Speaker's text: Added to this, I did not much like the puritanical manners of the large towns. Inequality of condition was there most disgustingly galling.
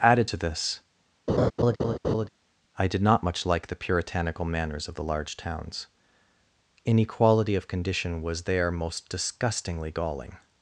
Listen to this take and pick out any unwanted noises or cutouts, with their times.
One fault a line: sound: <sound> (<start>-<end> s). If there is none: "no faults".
sound: laugh (1.3-2.3 s)